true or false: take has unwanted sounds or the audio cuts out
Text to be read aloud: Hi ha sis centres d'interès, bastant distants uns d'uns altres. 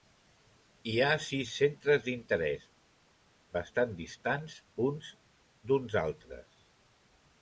false